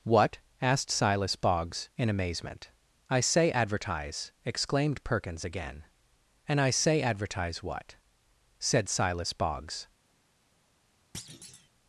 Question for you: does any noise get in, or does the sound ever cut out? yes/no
yes